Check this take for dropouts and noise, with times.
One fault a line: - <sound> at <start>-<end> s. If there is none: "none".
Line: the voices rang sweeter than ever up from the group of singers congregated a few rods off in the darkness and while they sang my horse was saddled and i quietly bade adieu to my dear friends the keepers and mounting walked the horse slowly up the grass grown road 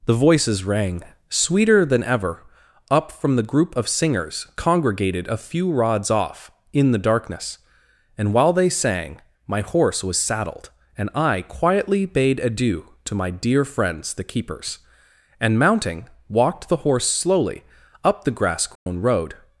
- dropout at 18.8-18.9 s